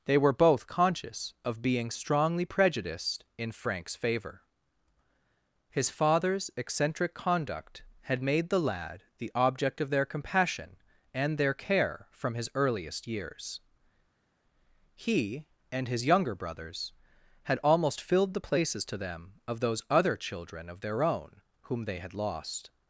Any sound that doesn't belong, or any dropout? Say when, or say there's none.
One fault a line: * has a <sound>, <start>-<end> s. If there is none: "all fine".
all fine